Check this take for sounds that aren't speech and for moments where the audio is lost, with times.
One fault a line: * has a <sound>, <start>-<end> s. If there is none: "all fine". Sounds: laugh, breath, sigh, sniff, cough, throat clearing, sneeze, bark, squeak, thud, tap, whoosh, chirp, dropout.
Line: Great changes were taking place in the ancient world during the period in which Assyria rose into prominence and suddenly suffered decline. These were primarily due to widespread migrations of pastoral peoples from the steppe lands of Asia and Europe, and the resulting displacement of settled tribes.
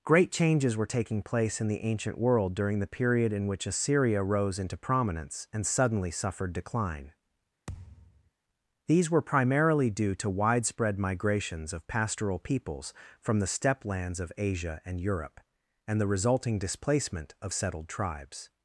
* has a thud, 7.7-8.3 s